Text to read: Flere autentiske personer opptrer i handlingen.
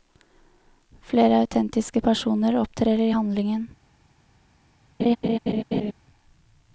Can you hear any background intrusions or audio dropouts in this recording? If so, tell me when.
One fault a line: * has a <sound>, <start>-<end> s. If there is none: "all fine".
* has a laugh, 5.0-5.9 s